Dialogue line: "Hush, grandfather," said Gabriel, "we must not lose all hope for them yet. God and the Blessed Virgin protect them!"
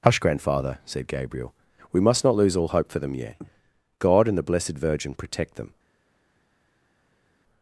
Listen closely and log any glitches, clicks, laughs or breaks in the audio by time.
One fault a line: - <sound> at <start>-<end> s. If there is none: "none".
none